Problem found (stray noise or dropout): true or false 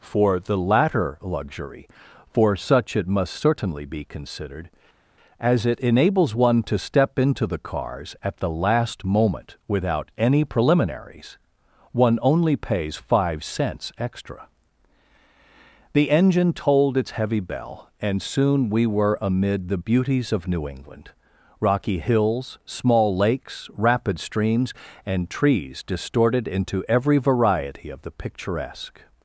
false